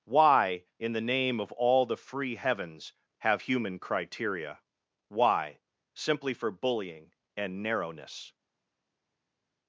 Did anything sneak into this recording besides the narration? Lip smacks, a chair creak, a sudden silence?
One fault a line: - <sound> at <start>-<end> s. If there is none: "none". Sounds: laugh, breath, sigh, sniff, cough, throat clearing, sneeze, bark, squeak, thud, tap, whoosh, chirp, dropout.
none